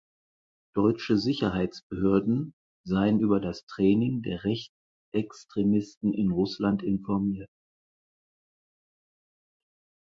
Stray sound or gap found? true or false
false